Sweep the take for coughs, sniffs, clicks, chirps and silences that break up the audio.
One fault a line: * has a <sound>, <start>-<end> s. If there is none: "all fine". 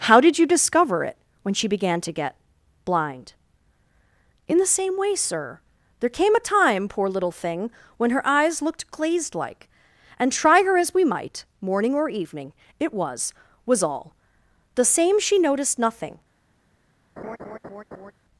* has a laugh, 17.2-18.1 s